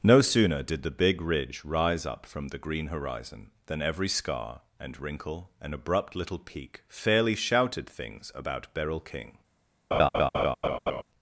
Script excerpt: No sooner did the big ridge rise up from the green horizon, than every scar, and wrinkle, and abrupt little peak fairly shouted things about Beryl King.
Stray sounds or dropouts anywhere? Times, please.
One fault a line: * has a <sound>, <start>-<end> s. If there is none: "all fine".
* has a laugh, 9.9-11.0 s